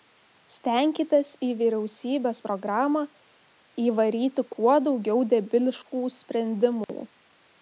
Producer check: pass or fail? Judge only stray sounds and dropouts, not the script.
fail